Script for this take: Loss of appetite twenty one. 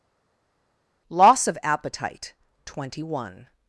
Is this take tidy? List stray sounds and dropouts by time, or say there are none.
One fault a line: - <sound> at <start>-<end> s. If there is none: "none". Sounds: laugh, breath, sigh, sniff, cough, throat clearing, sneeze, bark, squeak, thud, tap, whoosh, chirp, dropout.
none